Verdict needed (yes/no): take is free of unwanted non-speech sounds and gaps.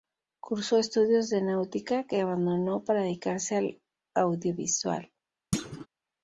no